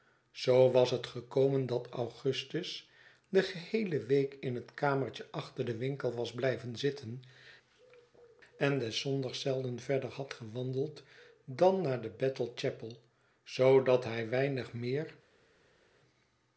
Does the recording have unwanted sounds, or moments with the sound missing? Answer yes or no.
no